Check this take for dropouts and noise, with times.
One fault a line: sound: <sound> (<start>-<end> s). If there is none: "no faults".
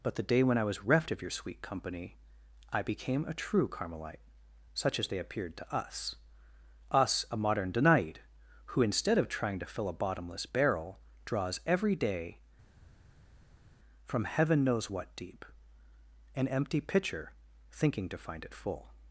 no faults